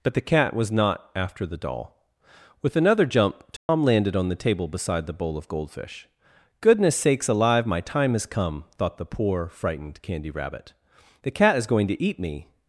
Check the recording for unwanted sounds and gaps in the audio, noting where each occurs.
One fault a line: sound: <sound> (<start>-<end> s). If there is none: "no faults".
sound: dropout (3.6-3.7 s)